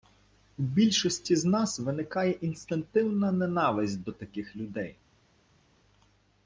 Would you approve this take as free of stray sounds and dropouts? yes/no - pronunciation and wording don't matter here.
yes